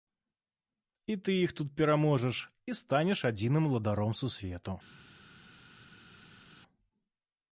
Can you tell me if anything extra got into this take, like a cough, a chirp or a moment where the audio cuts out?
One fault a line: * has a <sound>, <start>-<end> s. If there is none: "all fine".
all fine